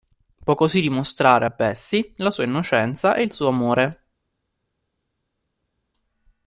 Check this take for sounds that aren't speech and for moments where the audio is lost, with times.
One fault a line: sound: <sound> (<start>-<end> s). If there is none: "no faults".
no faults